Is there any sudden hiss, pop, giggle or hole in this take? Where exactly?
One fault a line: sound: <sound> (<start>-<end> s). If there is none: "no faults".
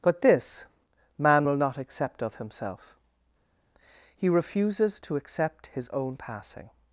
no faults